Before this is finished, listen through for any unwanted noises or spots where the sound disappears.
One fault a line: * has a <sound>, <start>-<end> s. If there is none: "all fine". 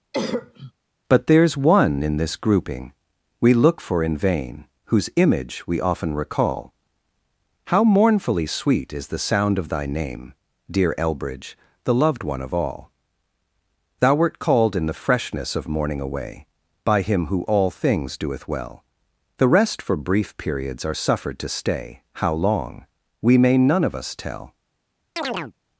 * has a cough, 0.1-0.7 s
* has a chirp, 25.2-25.5 s